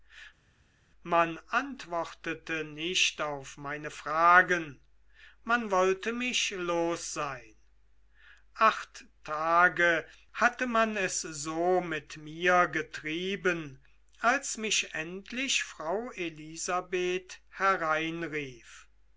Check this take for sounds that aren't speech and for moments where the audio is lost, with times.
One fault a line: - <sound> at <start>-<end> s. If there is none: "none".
none